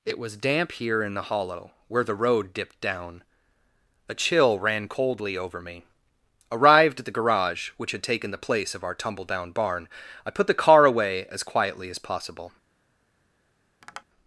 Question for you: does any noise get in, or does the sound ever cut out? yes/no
yes